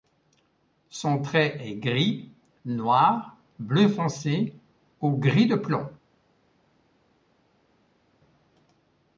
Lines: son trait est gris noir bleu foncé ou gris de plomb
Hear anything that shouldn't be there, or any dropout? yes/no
no